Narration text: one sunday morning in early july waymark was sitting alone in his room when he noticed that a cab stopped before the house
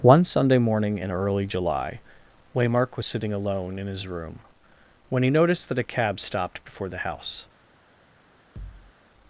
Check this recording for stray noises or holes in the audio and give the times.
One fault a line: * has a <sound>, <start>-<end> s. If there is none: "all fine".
* has a thud, 8.6-8.9 s